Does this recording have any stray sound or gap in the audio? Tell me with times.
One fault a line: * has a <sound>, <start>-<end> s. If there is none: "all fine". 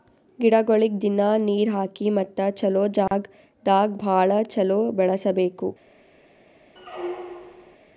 * has a dropout, 3.1-3.1 s
* has a squeak, 6.8-7.8 s